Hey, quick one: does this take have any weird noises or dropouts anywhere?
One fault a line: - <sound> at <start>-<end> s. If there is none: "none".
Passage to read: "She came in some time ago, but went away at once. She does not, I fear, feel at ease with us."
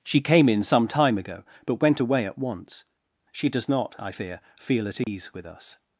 - dropout at 5.0-5.1 s